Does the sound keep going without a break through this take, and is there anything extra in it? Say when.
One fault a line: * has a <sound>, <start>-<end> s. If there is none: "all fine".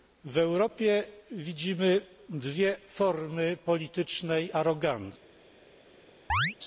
* has a chirp, 6.3-6.6 s